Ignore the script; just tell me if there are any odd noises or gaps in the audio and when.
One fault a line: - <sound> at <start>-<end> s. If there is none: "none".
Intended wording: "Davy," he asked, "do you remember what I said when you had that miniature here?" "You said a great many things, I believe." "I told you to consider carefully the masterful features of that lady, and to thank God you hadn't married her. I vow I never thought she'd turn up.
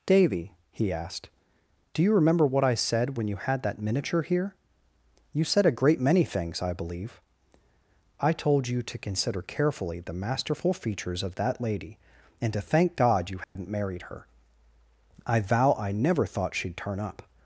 - dropout at 13.4-13.6 s